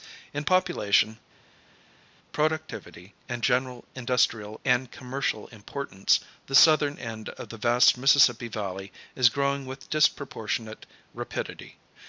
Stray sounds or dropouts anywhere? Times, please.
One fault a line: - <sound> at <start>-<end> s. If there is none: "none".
none